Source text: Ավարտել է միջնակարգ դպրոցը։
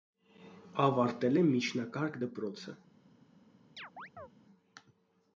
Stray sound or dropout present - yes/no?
yes